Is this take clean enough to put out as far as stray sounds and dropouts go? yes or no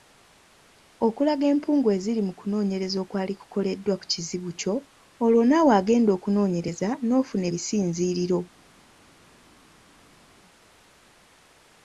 yes